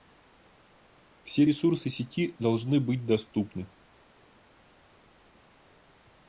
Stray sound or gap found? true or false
false